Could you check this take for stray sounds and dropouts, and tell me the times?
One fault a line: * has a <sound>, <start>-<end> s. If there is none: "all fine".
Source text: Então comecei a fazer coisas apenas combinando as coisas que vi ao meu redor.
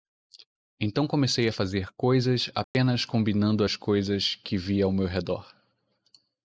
* has a dropout, 2.6-2.7 s